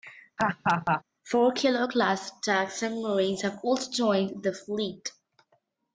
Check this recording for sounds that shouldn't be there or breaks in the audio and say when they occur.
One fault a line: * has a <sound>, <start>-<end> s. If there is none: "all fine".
* has a laugh, 0.4-1.0 s